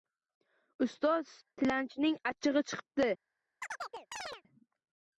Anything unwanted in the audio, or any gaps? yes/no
yes